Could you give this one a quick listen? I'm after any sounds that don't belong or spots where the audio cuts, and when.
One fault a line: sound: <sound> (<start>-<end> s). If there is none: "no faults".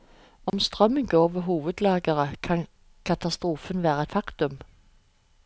sound: dropout (0.5-0.5 s)